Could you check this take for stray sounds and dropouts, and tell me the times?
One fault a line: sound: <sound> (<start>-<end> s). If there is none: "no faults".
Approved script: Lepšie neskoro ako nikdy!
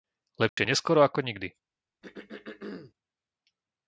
sound: dropout (0.5-0.6 s)
sound: throat clearing (2.0-2.9 s)